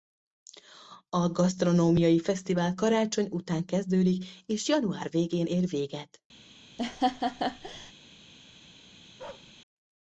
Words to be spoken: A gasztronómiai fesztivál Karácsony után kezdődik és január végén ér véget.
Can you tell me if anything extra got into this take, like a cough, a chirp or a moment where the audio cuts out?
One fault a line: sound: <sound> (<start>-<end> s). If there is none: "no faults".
sound: laugh (6.8-7.9 s)
sound: bark (9.2-9.5 s)